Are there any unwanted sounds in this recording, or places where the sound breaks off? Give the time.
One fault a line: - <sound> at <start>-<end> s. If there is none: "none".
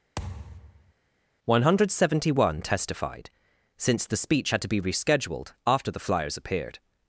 - thud at 0.2-0.9 s